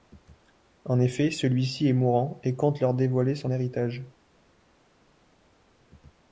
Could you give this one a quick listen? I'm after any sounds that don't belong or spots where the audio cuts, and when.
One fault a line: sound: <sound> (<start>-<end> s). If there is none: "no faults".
no faults